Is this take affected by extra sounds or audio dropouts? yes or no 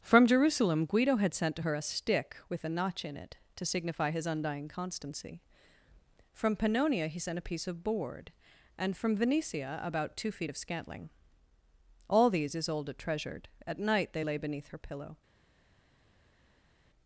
no